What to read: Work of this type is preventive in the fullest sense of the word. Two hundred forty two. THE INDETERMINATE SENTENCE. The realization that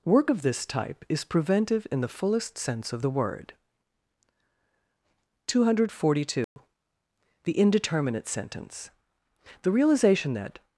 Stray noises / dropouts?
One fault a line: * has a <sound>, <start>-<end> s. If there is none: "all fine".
* has a dropout, 6.4-6.6 s